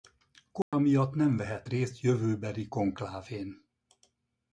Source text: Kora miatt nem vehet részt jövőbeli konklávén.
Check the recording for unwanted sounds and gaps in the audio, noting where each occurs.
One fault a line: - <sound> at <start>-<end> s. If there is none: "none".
- dropout at 0.6-0.7 s